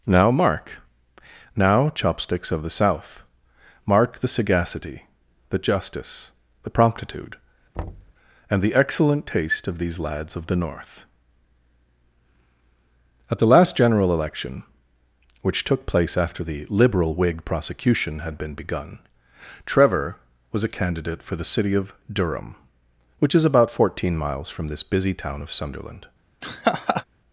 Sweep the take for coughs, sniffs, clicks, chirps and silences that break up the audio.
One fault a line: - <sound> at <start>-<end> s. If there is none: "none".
- thud at 7.7-8.1 s
- laugh at 26.4-27.0 s